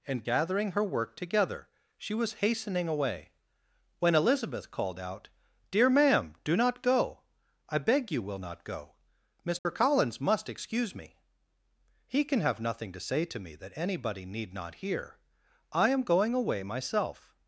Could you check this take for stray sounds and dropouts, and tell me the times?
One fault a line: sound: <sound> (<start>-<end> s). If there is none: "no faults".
sound: dropout (9.6-9.7 s)